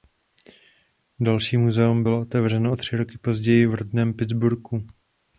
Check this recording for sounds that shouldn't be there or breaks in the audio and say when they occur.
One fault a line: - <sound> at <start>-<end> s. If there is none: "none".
none